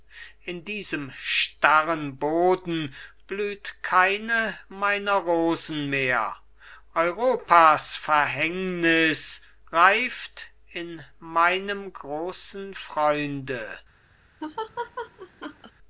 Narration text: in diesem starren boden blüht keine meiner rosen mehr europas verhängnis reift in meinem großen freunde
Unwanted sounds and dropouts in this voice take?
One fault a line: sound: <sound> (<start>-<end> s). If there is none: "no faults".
sound: laugh (14.4-15.7 s)